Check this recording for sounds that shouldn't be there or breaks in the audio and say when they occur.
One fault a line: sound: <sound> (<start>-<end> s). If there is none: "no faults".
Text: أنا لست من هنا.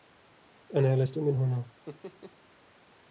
sound: laugh (1.9-2.4 s)